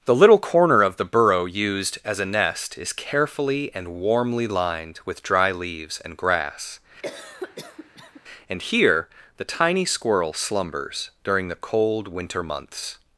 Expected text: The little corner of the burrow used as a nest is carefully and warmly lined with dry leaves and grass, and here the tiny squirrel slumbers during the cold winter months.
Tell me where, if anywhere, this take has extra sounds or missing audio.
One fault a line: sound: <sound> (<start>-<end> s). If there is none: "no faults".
sound: cough (7.0-8.2 s)